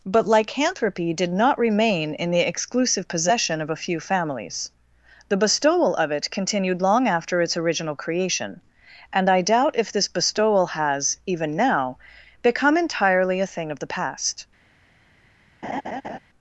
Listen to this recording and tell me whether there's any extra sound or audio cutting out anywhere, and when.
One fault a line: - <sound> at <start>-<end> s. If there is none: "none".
- laugh at 15.6-16.2 s